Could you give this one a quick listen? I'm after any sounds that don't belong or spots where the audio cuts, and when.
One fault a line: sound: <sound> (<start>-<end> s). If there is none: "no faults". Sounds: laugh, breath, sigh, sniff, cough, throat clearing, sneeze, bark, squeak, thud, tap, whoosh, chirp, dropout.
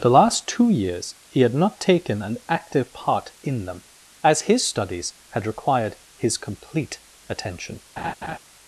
sound: laugh (8.0-8.4 s)